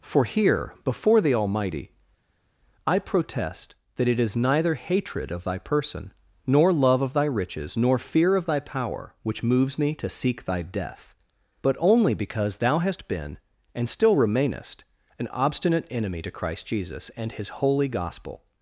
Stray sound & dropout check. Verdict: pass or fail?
pass